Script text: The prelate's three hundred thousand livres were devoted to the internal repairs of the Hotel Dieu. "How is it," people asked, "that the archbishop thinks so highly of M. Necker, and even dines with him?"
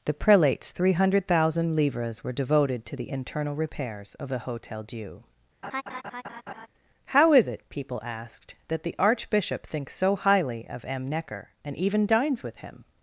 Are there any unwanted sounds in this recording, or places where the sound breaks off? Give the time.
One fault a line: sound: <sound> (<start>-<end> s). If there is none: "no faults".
sound: laugh (5.6-6.7 s)